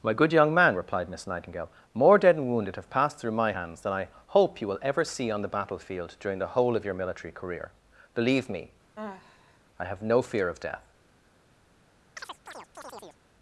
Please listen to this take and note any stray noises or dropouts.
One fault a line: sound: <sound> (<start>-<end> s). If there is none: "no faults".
sound: sigh (9.0-9.6 s)
sound: chirp (12.2-13.2 s)